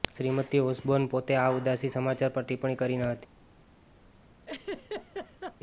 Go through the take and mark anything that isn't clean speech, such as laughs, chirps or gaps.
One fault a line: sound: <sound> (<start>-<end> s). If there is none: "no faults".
sound: laugh (4.5-5.6 s)